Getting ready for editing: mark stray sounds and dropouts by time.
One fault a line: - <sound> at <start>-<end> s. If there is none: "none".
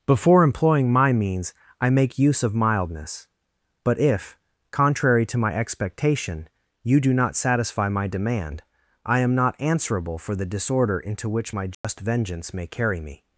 - dropout at 11.7-11.8 s